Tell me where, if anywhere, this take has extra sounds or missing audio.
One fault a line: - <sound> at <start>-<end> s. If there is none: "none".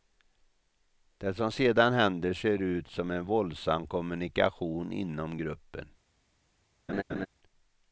- laugh at 6.9-7.3 s